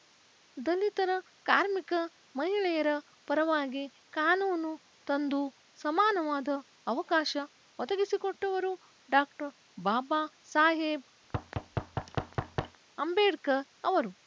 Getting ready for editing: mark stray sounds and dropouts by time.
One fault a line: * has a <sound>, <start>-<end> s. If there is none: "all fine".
* has a thud, 11.2-12.8 s